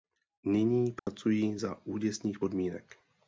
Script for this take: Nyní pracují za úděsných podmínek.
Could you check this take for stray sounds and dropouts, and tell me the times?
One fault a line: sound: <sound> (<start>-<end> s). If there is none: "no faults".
sound: dropout (1.0-1.1 s)